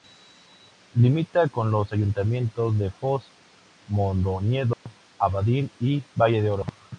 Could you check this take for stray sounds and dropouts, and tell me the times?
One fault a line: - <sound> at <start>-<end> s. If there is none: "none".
- dropout at 4.7-4.9 s